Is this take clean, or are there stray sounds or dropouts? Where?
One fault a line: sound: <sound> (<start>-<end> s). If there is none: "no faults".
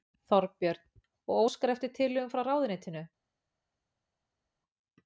no faults